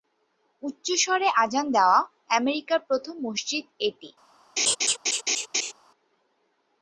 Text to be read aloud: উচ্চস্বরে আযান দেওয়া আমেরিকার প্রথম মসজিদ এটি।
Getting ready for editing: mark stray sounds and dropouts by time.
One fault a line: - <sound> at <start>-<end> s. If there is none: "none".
- laugh at 4.6-5.7 s